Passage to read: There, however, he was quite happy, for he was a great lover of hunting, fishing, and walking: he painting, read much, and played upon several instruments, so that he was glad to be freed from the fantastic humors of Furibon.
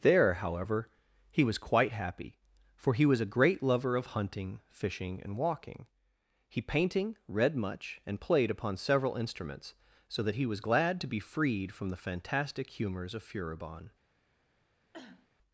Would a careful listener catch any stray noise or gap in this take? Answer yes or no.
yes